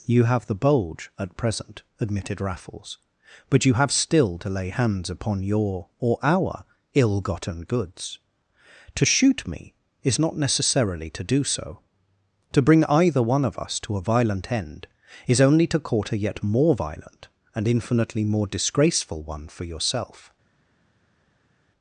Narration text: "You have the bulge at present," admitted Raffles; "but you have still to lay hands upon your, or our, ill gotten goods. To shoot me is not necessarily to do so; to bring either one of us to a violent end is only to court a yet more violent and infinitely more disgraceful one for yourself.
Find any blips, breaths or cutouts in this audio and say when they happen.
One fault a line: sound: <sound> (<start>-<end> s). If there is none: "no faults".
no faults